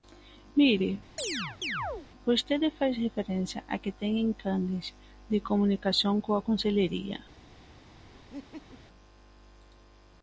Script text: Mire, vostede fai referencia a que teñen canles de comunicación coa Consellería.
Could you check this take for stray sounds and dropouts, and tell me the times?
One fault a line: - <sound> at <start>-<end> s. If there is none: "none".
- chirp at 1.2-2.1 s
- laugh at 8.3-8.8 s